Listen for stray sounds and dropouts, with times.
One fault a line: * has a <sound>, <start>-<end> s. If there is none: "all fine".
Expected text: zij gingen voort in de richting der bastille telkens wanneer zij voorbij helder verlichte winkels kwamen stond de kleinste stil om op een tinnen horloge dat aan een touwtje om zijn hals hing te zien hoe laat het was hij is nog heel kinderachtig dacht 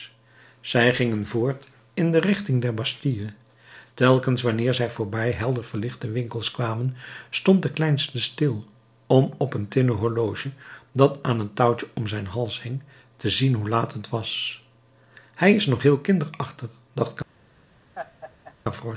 * has a laugh, 17.9-18.5 s